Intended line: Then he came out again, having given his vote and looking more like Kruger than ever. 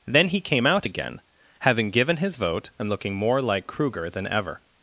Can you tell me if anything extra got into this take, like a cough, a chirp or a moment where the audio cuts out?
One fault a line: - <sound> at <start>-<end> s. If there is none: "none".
none